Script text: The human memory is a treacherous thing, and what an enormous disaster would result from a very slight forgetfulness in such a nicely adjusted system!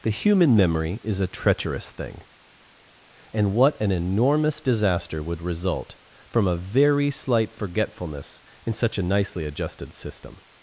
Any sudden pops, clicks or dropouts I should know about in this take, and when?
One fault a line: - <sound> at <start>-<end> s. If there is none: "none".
none